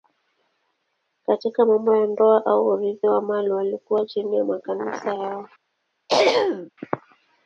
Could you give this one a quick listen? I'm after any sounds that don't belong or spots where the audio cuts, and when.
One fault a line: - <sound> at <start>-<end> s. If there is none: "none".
- throat clearing at 6.1-6.7 s